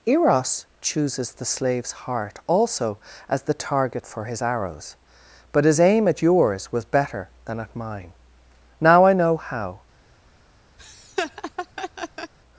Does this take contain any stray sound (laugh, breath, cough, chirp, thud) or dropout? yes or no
yes